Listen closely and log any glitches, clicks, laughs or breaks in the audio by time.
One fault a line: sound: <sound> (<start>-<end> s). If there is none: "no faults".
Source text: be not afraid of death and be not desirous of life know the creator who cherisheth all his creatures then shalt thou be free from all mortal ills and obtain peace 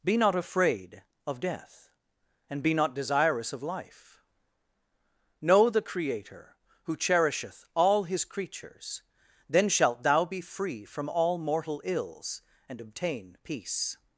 no faults